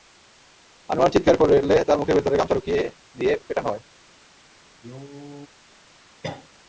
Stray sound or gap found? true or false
true